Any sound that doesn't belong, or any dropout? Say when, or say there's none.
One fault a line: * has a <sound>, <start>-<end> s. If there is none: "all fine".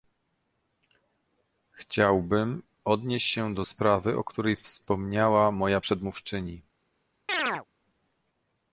* has a chirp, 7.3-7.7 s